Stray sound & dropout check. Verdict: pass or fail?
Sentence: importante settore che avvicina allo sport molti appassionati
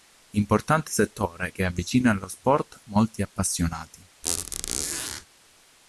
fail